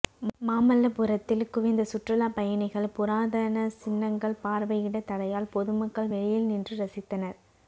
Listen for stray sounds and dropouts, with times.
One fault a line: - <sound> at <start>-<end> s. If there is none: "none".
none